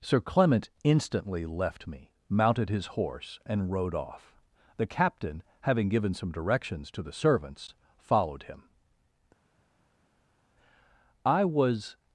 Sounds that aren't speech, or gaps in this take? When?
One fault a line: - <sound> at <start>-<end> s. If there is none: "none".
none